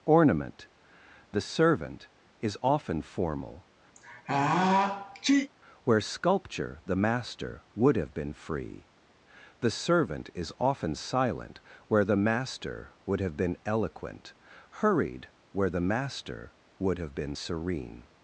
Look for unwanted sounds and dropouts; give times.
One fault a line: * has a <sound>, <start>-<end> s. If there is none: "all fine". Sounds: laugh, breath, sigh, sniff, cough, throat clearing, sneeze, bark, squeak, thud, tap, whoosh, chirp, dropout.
* has a sneeze, 3.9-5.5 s